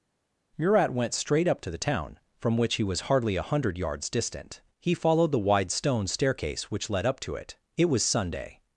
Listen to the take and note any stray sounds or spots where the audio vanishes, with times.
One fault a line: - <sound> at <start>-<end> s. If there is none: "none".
none